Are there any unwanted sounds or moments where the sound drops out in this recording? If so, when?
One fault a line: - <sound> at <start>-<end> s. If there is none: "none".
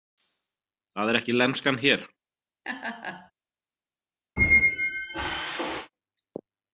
- laugh at 2.6-3.3 s
- squeak at 4.4-5.9 s